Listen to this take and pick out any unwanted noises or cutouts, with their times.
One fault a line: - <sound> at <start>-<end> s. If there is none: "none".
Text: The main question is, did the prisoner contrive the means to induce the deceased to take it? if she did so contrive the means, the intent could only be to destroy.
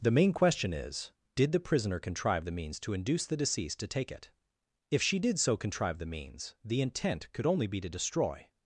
none